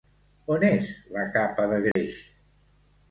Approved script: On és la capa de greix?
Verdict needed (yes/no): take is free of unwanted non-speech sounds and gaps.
no